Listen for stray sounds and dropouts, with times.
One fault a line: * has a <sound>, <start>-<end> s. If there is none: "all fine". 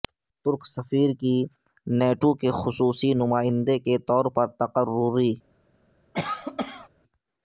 * has a cough, 6.1-6.9 s